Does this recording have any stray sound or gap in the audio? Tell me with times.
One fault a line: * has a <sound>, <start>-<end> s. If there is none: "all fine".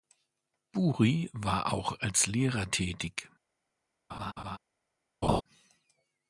* has a laugh, 4.1-4.6 s
* has a laugh, 5.2-5.4 s